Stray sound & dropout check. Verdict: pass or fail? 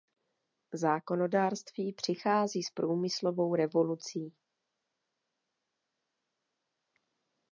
pass